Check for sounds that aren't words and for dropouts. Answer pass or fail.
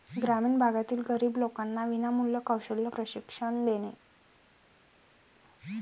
pass